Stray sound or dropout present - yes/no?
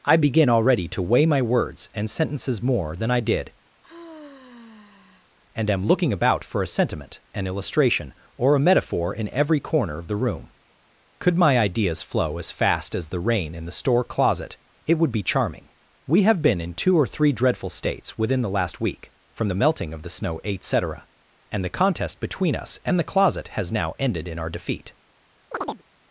yes